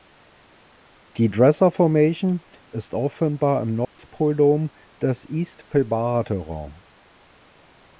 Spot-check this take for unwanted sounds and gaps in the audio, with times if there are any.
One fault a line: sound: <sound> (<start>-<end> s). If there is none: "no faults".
sound: dropout (3.8-4.0 s)